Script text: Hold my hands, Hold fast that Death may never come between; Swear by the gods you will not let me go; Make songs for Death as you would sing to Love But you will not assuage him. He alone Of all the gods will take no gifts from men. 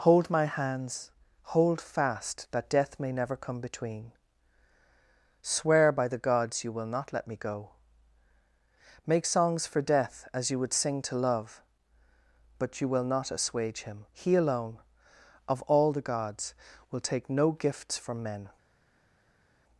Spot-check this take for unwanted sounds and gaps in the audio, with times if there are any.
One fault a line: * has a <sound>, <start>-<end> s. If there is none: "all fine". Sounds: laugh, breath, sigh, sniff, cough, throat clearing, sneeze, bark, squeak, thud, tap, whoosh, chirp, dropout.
all fine